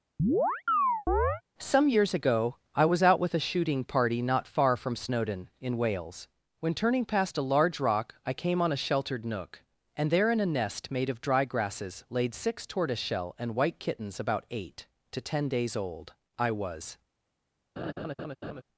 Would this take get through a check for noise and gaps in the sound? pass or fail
fail